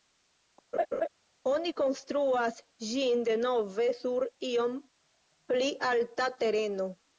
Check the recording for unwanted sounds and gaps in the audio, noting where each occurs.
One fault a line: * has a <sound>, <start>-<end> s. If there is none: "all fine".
* has a laugh, 0.7-1.1 s